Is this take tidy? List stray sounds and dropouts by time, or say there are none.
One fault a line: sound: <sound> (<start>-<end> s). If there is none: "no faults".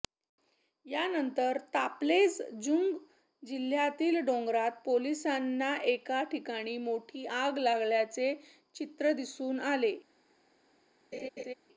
sound: laugh (11.1-11.5 s)